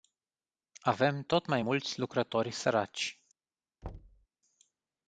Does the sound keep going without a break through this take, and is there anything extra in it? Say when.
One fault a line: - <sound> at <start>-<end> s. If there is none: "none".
- thud at 3.8-4.3 s